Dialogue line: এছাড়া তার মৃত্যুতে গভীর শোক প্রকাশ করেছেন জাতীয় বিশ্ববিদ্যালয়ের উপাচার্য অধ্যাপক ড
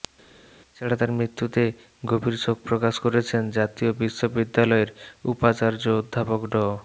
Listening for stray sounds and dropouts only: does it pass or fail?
pass